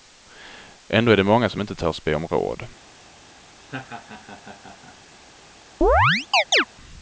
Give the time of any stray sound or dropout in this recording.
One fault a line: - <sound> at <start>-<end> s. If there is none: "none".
- laugh at 3.6-5.0 s
- chirp at 5.8-6.7 s